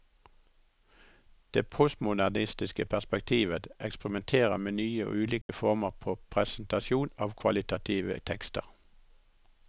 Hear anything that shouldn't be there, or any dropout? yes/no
yes